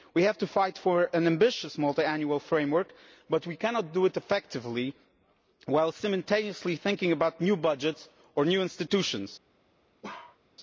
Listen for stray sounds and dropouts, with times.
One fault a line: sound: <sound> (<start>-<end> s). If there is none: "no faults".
sound: bark (10.0-10.4 s)